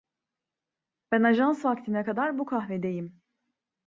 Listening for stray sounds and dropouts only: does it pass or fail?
pass